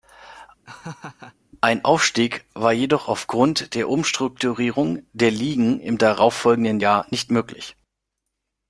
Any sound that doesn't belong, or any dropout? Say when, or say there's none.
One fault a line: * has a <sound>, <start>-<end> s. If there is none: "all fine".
* has a laugh, 0.6-1.3 s